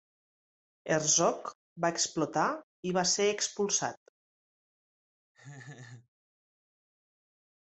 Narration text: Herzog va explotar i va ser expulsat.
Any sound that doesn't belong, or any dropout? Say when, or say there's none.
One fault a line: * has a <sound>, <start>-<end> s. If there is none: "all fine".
* has a laugh, 5.3-6.1 s